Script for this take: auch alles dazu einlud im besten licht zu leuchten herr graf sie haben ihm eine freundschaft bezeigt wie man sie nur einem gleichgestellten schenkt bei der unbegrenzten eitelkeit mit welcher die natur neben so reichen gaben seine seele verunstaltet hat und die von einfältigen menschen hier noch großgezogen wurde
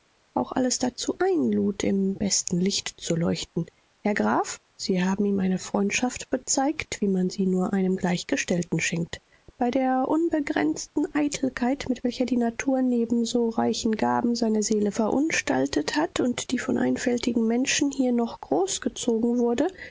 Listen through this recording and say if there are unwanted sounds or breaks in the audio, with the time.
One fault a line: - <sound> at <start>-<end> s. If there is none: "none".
none